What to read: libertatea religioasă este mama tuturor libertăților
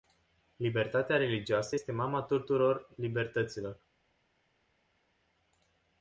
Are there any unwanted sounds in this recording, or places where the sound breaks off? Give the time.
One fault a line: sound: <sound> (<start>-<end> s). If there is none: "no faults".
no faults